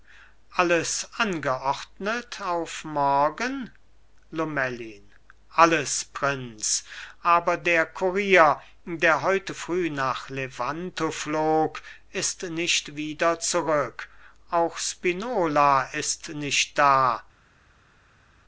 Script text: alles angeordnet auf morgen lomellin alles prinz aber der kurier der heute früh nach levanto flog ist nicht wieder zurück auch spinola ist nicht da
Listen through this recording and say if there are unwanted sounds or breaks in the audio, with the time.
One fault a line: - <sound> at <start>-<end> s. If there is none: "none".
none